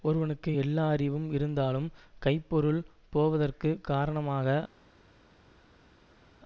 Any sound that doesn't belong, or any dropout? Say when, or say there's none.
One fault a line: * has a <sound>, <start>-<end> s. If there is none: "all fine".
all fine